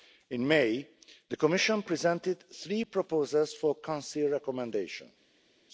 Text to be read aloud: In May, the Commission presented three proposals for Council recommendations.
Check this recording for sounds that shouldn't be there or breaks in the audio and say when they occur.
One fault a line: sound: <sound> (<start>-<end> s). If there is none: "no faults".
no faults